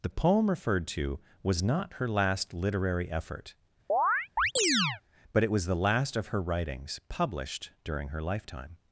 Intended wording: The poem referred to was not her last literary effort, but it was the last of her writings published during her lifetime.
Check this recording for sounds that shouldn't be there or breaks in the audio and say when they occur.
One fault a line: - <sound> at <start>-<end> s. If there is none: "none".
- chirp at 3.9-5.0 s